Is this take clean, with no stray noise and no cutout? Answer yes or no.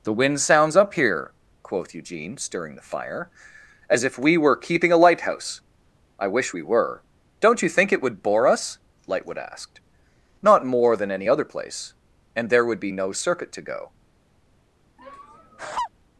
no